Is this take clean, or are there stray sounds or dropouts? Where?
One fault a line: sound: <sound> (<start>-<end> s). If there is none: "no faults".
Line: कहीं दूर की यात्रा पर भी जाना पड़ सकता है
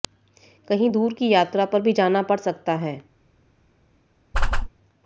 sound: whoosh (4.3-4.7 s)